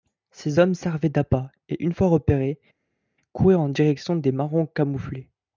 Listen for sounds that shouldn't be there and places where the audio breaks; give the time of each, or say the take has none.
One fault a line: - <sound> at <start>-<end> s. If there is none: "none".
none